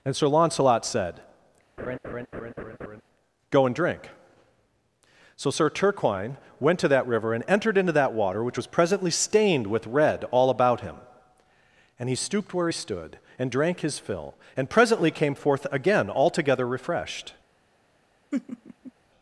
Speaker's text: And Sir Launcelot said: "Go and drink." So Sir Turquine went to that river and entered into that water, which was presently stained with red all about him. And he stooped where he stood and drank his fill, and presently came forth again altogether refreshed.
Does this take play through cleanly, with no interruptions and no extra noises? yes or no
no